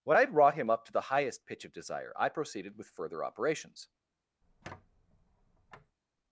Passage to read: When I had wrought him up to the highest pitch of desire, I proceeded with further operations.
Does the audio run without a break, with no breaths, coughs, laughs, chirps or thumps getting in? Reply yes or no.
no